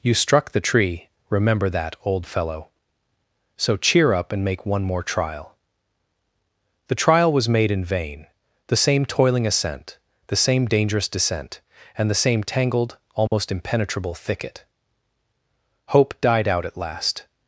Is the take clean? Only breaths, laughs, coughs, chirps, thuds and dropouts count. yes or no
no